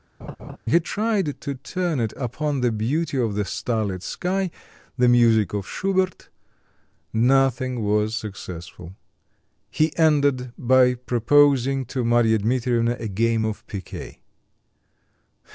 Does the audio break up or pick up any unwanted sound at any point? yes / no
yes